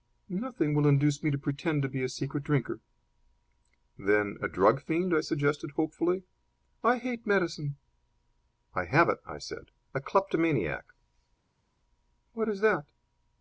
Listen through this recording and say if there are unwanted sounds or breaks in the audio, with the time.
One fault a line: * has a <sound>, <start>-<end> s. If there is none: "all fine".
all fine